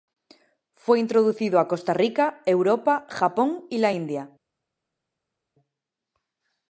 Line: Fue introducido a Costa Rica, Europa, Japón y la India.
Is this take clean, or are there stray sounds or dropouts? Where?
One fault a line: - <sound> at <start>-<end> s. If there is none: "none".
none